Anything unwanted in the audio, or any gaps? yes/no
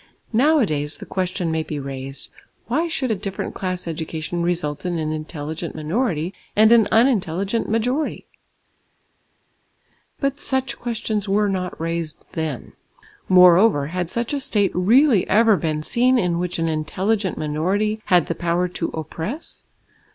no